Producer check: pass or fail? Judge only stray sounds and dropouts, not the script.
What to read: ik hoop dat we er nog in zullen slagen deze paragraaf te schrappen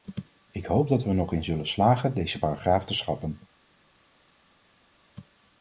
pass